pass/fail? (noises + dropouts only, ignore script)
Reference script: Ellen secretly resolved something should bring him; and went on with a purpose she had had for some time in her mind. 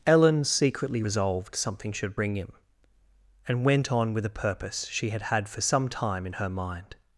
pass